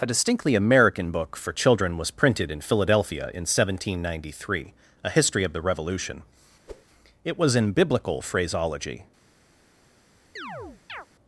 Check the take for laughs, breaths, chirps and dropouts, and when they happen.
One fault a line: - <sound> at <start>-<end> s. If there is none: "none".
- whoosh at 6.7-6.8 s
- chirp at 10.4-11.1 s